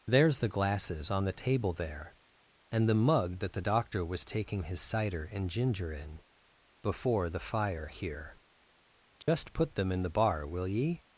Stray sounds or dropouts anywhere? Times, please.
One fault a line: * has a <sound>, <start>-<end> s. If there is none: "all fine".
* has a dropout, 9.2-9.3 s